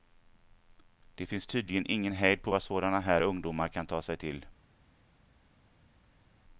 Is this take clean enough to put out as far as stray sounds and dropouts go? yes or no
yes